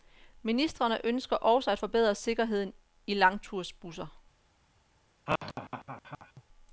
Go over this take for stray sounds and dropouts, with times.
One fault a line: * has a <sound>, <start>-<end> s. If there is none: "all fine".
* has a laugh, 5.3-6.4 s